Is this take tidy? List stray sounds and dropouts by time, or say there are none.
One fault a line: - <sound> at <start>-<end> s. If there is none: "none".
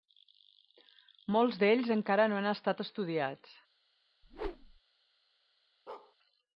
- whoosh at 4.2-4.8 s
- bark at 5.9-6.2 s